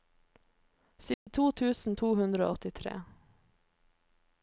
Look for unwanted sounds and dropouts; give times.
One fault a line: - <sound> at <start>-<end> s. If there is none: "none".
- dropout at 1.1-1.3 s